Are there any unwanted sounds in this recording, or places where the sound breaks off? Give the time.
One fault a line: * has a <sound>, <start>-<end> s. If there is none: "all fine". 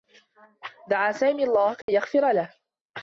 * has a dropout, 1.8-1.9 s